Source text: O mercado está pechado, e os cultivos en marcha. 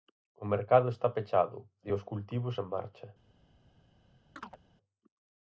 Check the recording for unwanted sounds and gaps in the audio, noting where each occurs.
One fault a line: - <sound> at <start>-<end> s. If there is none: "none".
- chirp at 4.4-4.6 s